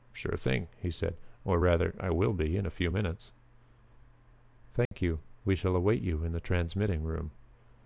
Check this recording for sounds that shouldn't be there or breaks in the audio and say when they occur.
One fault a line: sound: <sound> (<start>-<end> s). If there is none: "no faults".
sound: dropout (4.9-4.9 s)